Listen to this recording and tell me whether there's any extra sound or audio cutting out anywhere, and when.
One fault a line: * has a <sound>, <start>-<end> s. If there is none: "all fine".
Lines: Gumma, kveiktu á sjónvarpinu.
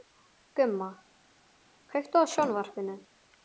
all fine